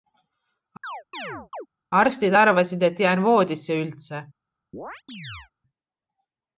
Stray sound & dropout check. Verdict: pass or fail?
fail